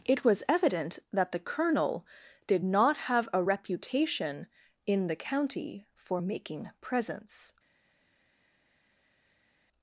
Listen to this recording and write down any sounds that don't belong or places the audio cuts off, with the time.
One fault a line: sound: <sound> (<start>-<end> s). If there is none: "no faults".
no faults